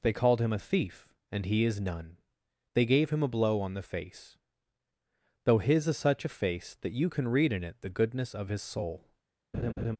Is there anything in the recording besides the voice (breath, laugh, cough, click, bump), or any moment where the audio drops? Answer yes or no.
yes